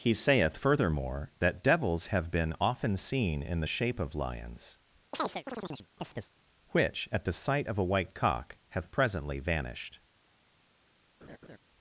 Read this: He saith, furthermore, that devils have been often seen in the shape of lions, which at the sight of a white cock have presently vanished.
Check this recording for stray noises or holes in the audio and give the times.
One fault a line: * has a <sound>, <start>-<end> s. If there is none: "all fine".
* has a chirp, 5.1-6.3 s
* has a laugh, 11.2-11.6 s